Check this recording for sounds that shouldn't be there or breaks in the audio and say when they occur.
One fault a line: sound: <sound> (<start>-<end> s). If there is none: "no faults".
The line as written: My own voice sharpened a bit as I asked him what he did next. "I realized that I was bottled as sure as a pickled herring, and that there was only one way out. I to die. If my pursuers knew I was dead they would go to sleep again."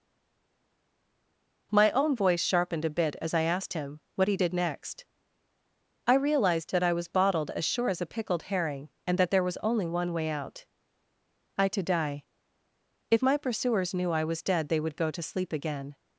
no faults